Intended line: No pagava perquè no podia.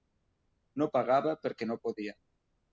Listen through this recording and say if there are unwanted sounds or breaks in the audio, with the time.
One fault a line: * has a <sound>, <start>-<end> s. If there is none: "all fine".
all fine